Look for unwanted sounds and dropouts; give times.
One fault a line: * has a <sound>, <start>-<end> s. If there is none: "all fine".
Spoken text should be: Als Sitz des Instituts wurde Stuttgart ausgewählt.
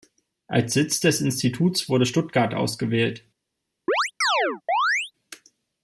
* has a chirp, 3.9-5.1 s